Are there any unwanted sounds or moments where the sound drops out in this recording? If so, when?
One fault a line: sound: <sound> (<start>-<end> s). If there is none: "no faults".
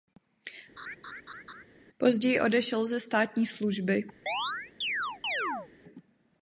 sound: laugh (0.8-1.6 s)
sound: chirp (4.3-5.7 s)